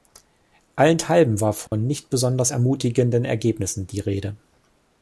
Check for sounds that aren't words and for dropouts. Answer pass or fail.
fail